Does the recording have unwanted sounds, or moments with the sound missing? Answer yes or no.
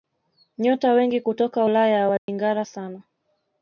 yes